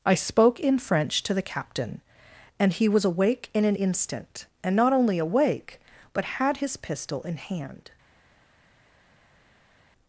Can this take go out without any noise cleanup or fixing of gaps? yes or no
yes